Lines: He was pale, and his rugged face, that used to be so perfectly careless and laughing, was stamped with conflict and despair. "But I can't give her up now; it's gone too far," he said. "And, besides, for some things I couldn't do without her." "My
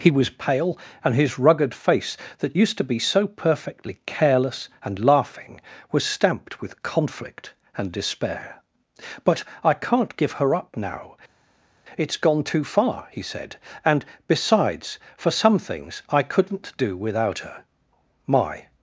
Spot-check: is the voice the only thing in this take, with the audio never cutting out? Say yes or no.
yes